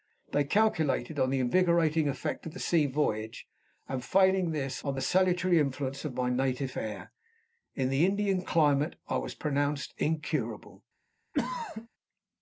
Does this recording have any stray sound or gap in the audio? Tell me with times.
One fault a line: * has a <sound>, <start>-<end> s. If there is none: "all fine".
* has a throat clearing, 11.3-11.9 s